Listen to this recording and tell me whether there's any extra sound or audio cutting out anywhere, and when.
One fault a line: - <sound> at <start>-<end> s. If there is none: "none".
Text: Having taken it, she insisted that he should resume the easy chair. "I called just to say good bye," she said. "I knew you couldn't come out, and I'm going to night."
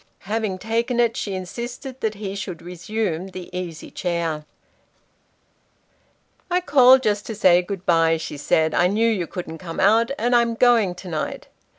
none